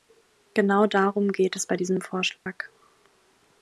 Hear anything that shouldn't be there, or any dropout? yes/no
yes